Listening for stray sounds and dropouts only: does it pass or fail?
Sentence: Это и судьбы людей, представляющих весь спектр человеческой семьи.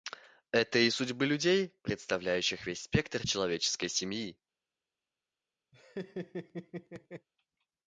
fail